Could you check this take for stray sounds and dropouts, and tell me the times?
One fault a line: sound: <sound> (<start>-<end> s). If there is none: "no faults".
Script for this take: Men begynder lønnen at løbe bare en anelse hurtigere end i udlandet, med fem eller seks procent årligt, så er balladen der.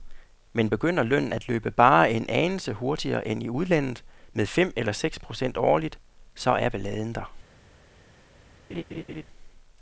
sound: laugh (8.7-9.2 s)